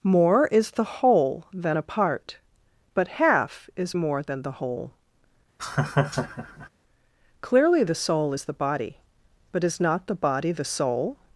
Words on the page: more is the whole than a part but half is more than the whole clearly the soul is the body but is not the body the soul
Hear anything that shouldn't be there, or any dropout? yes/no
yes